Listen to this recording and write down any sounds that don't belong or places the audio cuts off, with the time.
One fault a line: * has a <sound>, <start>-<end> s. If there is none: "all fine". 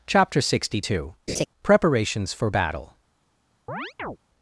* has a laugh, 1.3-1.5 s
* has a chirp, 3.7-4.2 s